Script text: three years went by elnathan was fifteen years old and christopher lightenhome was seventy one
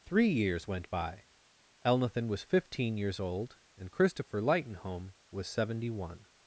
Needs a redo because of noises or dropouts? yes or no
no